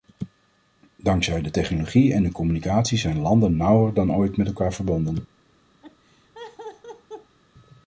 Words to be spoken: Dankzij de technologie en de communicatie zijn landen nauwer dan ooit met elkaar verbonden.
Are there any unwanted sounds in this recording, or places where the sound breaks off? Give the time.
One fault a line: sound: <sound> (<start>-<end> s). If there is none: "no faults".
sound: laugh (5.8-7.4 s)